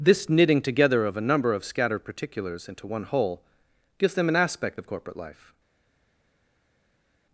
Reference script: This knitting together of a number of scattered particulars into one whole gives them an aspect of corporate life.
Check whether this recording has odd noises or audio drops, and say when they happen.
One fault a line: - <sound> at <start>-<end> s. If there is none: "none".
none